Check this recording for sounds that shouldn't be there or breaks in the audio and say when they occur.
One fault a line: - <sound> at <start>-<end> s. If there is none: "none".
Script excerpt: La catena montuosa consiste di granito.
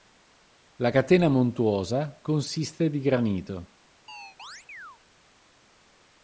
- chirp at 4.1-5.0 s